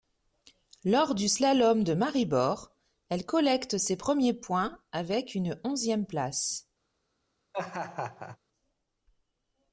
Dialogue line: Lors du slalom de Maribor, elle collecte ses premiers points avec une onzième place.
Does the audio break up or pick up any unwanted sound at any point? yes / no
yes